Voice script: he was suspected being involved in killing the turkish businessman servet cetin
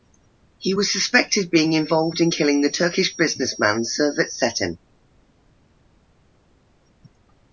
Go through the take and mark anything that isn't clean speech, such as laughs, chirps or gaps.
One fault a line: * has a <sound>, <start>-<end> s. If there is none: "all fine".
all fine